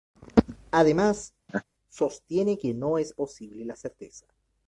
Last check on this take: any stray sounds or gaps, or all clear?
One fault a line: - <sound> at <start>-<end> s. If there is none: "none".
- laugh at 1.5-1.6 s